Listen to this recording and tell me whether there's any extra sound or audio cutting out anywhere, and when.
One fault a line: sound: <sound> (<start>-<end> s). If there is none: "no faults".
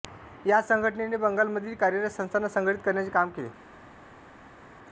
no faults